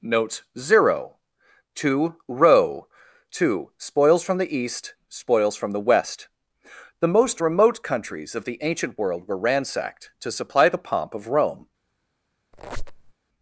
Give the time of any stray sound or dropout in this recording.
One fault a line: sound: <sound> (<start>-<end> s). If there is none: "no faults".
sound: squeak (12.5-13.1 s)